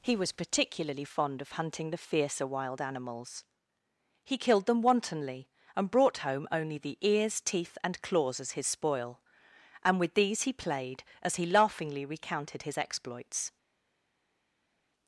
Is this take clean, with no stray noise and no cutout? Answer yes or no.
yes